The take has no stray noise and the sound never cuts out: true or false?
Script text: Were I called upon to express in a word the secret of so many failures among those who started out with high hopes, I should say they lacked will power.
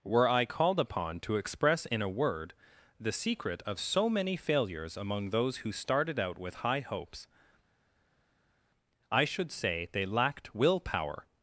true